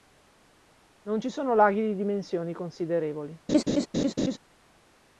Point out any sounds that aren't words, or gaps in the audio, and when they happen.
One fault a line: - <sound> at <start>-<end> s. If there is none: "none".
- laugh at 3.5-4.4 s